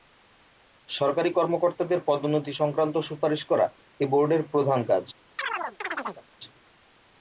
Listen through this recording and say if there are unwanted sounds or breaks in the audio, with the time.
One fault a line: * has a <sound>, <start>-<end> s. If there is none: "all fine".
* has a chirp, 5.4-6.2 s